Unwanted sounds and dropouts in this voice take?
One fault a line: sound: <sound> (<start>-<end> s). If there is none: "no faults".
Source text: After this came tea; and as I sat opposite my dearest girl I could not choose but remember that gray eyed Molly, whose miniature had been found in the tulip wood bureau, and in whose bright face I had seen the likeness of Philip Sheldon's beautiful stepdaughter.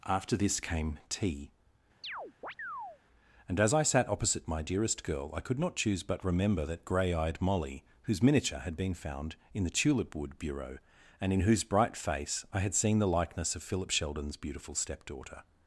sound: chirp (2.0-3.0 s)